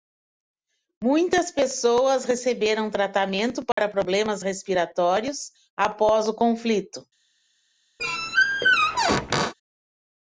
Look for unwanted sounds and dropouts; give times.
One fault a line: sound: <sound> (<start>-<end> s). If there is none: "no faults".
sound: dropout (3.7-3.8 s)
sound: squeak (8.0-9.5 s)